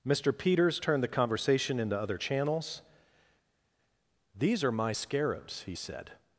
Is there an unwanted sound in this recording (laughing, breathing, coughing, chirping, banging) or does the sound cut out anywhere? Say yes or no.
no